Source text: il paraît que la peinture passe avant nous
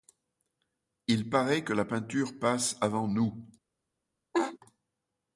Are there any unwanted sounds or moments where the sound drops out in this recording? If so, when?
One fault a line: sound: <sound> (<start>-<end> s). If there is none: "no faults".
sound: laugh (4.3-4.6 s)